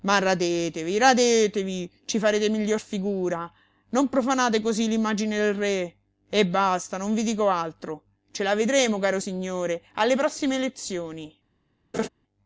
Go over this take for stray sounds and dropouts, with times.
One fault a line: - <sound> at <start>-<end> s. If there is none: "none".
- laugh at 11.9-12.1 s